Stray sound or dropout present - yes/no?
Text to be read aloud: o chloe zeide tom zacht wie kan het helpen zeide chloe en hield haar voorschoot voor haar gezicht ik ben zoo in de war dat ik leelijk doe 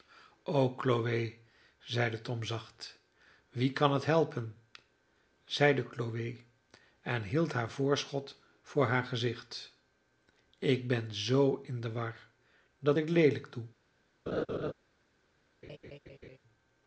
yes